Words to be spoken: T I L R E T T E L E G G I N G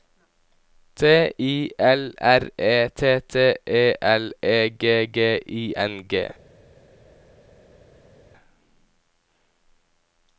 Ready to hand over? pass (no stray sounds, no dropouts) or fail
pass